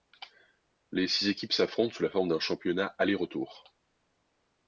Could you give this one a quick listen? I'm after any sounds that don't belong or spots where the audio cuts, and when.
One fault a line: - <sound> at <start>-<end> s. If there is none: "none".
none